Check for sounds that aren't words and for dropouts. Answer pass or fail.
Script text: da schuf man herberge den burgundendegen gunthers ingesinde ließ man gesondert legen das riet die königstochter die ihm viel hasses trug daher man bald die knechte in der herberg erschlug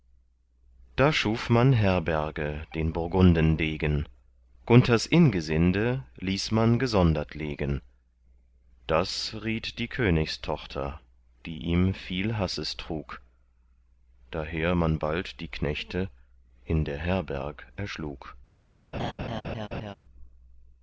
fail